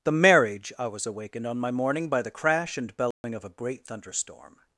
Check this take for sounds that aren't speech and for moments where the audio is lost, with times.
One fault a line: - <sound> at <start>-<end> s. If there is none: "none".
- dropout at 3.1-3.2 s